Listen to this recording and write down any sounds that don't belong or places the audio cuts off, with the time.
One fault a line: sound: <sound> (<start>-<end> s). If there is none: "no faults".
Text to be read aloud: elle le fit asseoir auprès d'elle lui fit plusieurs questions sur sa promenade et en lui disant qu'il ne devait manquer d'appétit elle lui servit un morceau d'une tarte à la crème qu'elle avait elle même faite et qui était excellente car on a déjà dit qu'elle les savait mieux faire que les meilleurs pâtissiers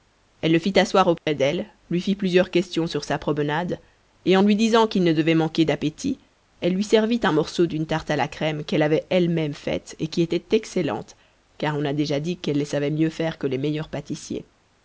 sound: dropout (1.2-1.3 s)